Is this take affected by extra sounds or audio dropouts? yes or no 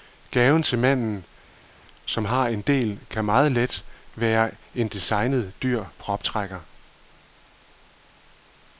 no